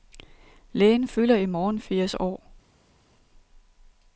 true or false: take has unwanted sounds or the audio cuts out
false